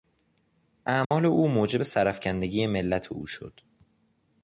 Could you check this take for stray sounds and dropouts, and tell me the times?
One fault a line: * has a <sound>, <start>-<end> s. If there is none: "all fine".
* has a dropout, 1.0-1.1 s